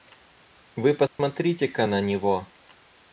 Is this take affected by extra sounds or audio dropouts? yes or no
yes